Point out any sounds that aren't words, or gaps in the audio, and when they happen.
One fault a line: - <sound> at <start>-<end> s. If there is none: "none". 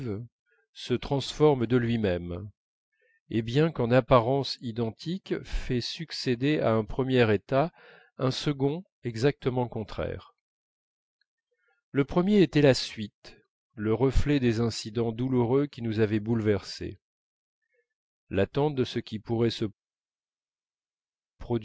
none